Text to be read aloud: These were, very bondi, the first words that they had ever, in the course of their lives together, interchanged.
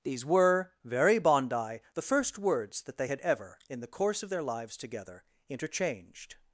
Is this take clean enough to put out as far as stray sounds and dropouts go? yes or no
yes